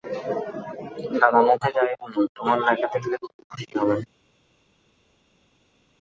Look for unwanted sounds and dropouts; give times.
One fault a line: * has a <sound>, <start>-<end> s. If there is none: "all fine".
all fine